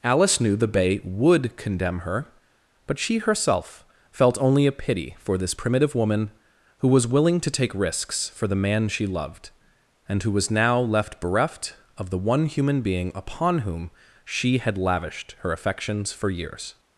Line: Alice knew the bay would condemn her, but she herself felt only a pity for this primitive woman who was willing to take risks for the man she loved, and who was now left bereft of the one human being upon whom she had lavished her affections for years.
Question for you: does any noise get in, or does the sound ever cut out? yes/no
no